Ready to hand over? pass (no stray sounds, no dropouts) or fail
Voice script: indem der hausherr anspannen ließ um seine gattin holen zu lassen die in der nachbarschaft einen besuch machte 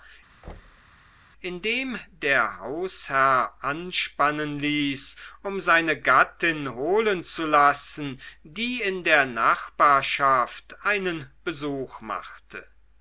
fail